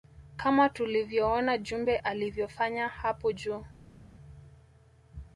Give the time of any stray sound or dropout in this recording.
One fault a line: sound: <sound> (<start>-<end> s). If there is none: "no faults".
no faults